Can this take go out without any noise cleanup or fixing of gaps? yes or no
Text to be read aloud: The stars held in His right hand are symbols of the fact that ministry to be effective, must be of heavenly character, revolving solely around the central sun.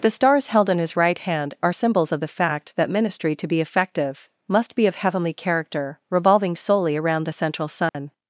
no